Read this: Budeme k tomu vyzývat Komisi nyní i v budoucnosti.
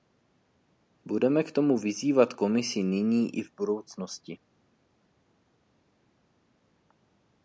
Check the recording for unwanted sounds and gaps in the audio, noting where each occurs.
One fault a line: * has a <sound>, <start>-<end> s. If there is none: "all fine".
all fine